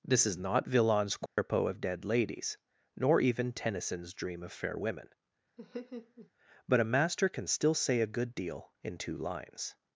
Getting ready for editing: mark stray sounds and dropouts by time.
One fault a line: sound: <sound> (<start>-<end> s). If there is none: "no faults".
sound: dropout (1.3-1.4 s)
sound: laugh (5.6-6.3 s)